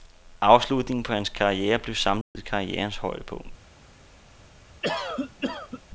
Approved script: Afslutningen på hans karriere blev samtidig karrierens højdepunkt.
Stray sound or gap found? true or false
true